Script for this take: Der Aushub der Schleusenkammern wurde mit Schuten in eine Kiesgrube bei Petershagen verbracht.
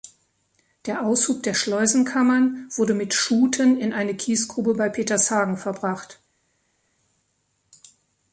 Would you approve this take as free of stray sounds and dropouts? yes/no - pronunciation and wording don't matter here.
yes